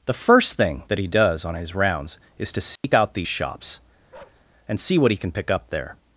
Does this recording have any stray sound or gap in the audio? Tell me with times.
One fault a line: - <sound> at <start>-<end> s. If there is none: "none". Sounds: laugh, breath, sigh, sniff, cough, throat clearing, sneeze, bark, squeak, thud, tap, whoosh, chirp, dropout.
- dropout at 2.8-2.8 s
- bark at 4.1-4.4 s